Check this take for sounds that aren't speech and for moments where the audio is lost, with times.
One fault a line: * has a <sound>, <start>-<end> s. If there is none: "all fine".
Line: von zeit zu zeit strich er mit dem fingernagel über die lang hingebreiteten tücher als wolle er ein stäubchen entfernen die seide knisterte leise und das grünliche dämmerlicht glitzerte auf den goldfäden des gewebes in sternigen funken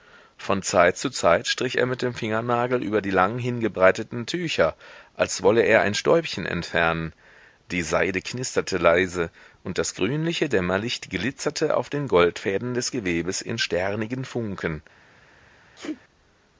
* has a sneeze, 15.8-16.0 s